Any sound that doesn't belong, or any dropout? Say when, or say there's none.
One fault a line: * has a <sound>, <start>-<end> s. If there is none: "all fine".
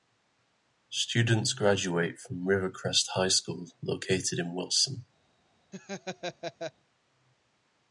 * has a laugh, 5.7-6.7 s